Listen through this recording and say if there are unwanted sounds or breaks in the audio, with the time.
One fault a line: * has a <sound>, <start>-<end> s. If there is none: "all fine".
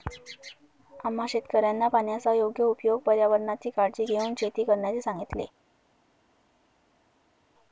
all fine